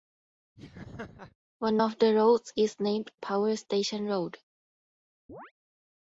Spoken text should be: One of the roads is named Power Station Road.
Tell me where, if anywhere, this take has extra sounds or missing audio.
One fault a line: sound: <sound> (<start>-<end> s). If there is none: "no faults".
sound: laugh (0.6-1.4 s)
sound: chirp (5.3-5.5 s)